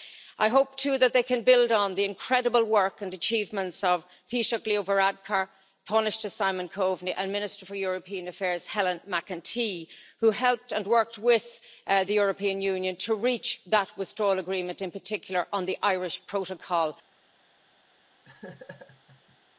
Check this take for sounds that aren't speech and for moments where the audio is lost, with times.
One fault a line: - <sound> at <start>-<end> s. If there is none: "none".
- laugh at 18.2-19.4 s